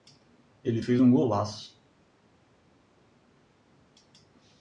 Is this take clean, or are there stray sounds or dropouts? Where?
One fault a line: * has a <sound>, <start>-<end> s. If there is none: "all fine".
all fine